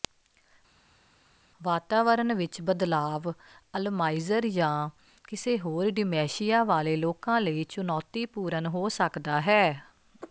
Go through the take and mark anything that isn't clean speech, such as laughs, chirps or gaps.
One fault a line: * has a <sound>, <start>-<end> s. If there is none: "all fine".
all fine